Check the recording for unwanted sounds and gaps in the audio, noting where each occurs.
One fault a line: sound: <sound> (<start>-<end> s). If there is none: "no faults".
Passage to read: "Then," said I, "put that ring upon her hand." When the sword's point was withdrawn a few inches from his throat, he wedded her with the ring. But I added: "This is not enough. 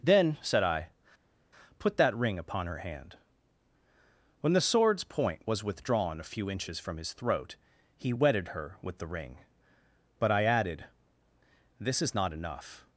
no faults